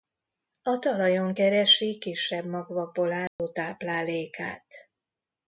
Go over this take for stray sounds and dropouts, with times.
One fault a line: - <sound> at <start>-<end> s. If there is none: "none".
- dropout at 3.3-3.4 s